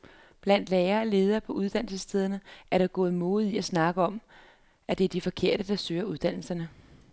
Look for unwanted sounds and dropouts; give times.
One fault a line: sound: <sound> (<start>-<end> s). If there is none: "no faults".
no faults